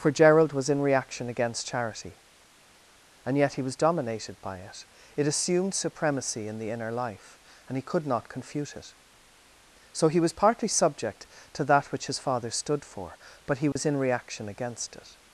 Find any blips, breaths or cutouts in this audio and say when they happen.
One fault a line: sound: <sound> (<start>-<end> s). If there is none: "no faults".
sound: dropout (13.7-13.8 s)